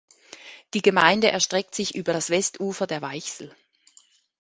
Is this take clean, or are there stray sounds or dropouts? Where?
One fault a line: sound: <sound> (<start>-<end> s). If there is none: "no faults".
no faults